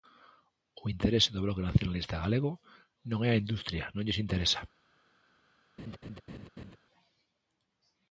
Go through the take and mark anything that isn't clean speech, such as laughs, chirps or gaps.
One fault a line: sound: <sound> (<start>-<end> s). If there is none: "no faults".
sound: laugh (5.8-6.8 s)